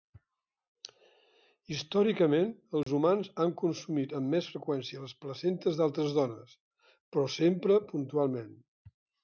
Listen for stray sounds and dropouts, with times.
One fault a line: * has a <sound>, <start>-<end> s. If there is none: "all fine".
* has a dropout, 2.8-2.9 s